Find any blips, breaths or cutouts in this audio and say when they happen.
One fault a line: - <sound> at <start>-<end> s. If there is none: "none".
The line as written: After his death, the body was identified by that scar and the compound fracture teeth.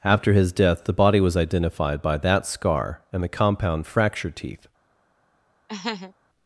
- laugh at 5.7-6.1 s